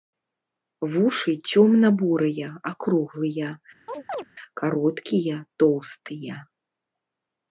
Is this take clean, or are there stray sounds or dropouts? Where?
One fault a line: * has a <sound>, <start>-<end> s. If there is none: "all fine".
* has a chirp, 3.9-4.3 s